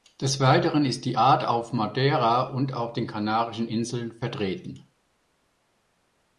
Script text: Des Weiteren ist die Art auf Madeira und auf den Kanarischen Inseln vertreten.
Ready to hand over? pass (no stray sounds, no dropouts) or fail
pass